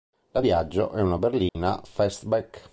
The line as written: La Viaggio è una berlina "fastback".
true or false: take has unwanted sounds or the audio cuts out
true